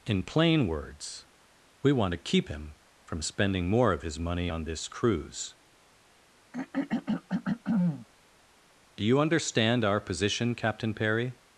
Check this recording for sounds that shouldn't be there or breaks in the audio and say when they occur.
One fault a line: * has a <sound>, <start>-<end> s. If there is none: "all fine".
* has a throat clearing, 6.5-8.1 s